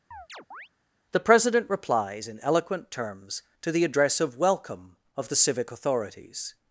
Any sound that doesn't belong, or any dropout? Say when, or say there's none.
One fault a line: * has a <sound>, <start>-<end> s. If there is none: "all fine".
* has a chirp, 0.1-0.7 s